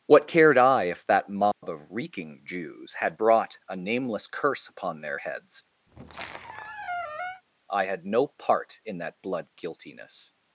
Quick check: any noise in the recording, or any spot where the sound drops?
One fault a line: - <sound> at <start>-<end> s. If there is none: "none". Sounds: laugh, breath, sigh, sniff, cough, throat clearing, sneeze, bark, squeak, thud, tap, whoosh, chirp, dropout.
- dropout at 1.5-1.6 s
- squeak at 5.9-7.4 s